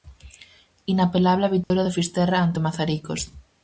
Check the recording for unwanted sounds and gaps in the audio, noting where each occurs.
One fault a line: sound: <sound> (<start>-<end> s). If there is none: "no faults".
sound: dropout (1.6-1.7 s)